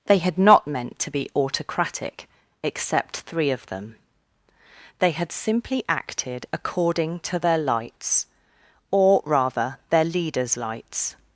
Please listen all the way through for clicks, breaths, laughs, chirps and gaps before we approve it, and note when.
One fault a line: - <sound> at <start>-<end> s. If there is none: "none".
none